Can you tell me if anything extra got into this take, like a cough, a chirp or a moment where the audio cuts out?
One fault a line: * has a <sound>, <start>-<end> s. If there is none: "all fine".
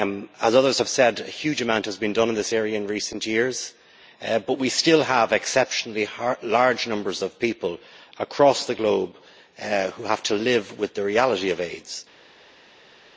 all fine